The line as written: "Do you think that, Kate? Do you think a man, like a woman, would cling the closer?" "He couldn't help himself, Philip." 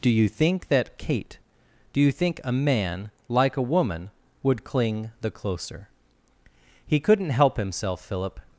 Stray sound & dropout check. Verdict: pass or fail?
pass